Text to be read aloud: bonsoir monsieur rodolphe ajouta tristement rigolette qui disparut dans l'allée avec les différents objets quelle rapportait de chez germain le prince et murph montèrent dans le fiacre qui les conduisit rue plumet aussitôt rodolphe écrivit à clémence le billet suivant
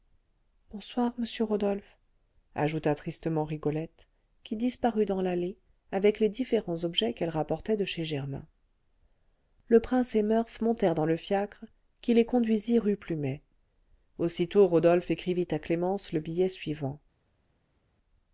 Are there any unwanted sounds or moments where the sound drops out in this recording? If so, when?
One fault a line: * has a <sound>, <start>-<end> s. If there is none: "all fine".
all fine